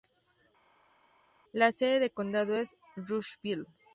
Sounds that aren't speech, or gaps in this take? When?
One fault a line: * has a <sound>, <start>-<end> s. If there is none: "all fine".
all fine